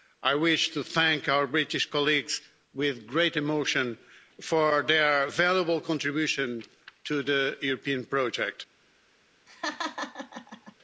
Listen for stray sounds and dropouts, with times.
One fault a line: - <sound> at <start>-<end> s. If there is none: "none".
- laugh at 9.5-10.8 s